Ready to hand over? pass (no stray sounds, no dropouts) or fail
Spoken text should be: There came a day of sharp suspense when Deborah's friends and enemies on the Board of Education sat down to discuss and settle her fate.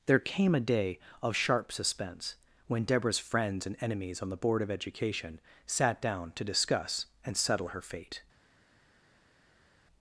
pass